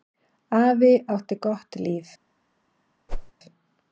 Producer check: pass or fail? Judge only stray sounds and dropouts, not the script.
fail